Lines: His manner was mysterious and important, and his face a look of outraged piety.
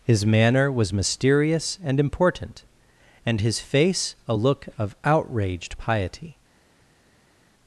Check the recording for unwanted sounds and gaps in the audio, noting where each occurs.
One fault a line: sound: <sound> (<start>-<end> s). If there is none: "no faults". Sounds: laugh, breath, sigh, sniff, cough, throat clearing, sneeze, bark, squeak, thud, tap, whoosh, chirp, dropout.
no faults